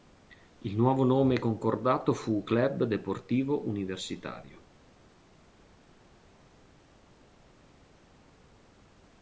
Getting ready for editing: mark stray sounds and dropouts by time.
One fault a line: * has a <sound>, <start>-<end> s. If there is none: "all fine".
all fine